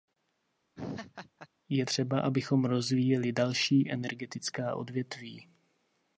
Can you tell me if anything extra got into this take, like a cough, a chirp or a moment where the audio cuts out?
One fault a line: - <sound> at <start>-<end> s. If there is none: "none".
- laugh at 0.8-1.5 s